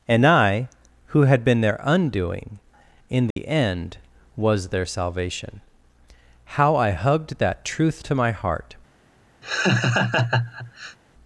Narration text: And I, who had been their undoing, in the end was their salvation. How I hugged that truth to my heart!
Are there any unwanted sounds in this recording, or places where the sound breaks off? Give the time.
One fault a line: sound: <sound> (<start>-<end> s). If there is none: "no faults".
sound: dropout (3.3-3.4 s)
sound: laugh (9.4-11.0 s)